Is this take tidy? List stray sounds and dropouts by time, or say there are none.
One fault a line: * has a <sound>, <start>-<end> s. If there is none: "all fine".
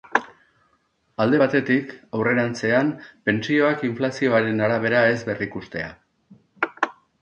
all fine